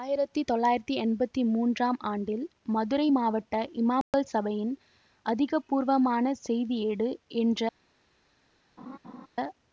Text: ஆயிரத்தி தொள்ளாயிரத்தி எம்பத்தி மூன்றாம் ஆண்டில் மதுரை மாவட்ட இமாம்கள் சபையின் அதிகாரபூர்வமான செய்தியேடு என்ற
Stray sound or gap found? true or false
true